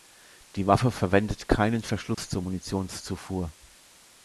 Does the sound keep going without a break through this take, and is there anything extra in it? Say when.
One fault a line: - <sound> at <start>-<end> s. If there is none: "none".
- dropout at 2.1-2.2 s